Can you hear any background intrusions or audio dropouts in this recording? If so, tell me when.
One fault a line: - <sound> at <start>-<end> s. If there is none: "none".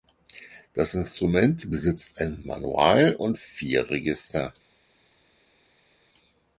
none